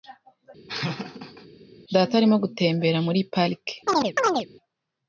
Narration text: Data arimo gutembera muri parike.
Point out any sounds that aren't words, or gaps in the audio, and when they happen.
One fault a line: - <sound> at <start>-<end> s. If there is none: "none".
- laugh at 0.7-1.5 s
- chirp at 3.9-4.5 s